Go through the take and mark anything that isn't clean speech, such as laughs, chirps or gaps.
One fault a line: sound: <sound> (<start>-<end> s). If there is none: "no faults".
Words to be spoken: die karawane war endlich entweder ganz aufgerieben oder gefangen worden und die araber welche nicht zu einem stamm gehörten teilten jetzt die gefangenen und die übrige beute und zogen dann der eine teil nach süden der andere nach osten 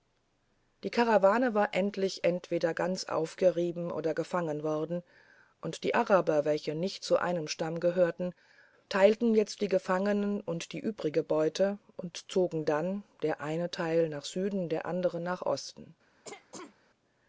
sound: throat clearing (16.2-16.7 s)